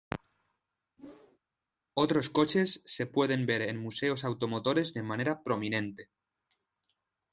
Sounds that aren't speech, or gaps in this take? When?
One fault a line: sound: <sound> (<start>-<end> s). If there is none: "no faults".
sound: whoosh (1.0-1.4 s)